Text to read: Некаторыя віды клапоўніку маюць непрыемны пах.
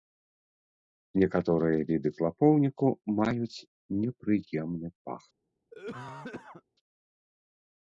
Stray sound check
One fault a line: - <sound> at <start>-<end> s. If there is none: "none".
- cough at 5.7-6.6 s